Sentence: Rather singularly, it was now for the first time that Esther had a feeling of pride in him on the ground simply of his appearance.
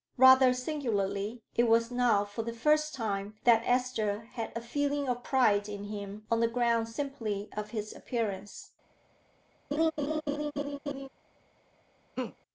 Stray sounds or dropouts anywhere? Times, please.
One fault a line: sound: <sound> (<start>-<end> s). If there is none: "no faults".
sound: laugh (9.7-11.1 s)
sound: laugh (12.2-12.4 s)